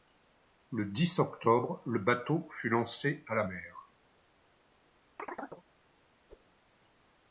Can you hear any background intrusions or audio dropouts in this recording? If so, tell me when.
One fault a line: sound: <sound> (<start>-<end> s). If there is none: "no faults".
sound: chirp (5.2-5.6 s)
sound: whoosh (6.3-6.5 s)